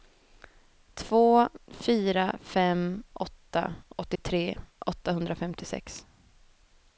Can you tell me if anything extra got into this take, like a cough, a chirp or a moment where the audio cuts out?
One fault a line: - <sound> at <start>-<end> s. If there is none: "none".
- dropout at 4.2-4.2 s